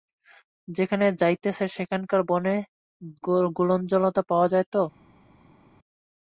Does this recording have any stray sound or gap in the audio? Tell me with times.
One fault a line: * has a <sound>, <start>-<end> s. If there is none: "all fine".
all fine